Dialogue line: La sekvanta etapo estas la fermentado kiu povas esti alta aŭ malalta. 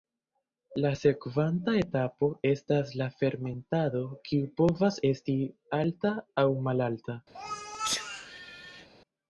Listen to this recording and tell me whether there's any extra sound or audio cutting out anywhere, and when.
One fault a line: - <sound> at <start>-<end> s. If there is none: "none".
- sneeze at 7.3-8.9 s